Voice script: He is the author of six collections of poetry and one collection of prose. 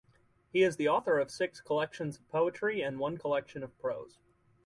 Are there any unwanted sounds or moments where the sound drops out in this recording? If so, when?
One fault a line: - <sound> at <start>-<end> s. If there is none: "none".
none